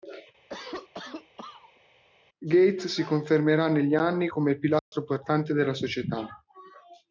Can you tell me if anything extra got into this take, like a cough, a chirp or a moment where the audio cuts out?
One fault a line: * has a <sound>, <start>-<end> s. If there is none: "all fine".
* has a cough, 0.5-1.8 s
* has a dropout, 4.8-4.9 s